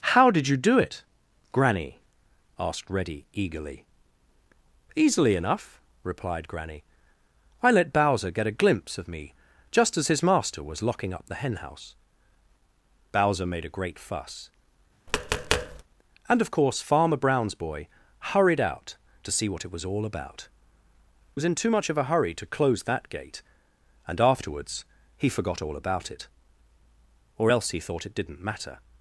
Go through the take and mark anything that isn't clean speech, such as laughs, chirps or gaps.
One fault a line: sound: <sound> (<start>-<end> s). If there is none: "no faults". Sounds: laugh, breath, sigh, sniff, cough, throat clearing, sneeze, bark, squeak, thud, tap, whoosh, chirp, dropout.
sound: tap (15.1-15.8 s)